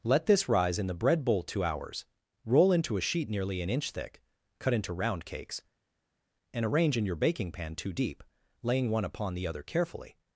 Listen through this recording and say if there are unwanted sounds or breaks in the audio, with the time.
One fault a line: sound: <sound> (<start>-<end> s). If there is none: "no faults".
no faults